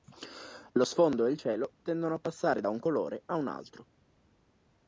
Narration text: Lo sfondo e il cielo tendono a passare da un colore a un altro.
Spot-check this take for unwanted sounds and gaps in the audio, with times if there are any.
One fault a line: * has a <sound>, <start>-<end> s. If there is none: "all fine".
all fine